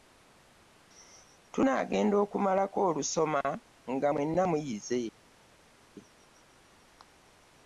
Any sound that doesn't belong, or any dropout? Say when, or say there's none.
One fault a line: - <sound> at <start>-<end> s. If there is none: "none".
none